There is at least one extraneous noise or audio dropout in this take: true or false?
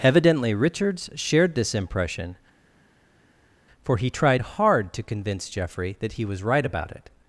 false